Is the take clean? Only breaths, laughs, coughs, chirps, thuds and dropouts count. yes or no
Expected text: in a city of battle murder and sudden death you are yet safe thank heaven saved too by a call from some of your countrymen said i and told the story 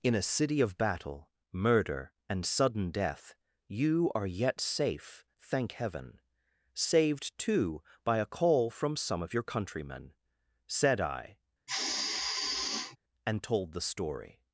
no